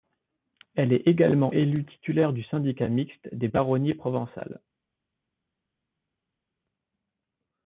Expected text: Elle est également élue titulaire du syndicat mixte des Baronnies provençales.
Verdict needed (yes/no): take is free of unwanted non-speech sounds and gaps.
yes